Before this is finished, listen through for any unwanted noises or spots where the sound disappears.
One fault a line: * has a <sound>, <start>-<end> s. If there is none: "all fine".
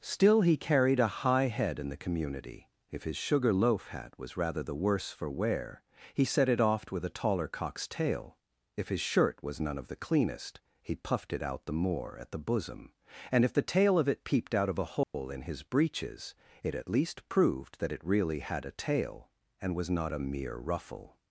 * has a dropout, 15.0-15.1 s